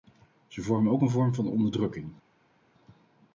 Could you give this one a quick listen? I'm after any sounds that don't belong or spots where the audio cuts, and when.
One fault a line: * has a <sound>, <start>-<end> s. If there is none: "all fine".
all fine